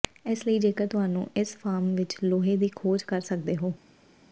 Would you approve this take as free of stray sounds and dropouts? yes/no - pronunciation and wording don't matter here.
yes